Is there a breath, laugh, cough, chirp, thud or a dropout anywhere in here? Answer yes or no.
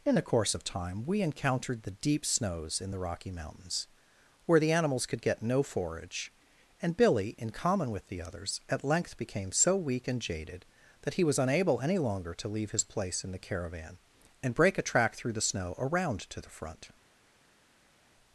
no